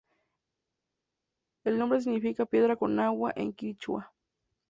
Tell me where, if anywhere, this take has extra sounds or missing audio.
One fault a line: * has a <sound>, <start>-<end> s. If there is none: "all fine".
all fine